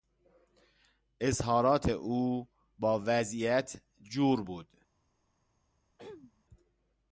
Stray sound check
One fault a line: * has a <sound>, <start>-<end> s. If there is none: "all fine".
* has a throat clearing, 6.0-6.4 s